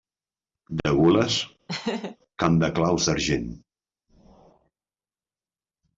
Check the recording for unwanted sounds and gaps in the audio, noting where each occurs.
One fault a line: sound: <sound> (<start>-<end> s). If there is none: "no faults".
sound: laugh (1.7-2.2 s)